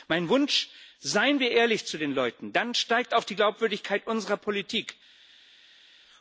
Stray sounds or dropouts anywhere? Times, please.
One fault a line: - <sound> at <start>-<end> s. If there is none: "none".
none